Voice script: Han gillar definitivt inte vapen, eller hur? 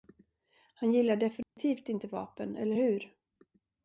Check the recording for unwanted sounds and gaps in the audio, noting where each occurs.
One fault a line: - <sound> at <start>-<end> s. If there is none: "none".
- dropout at 1.4-1.6 s